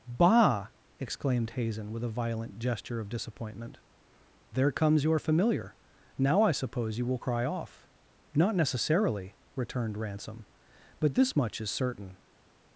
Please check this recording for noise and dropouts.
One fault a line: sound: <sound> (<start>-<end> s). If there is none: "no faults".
no faults